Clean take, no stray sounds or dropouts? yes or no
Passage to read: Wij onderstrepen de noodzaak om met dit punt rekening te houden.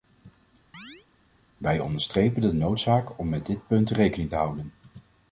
no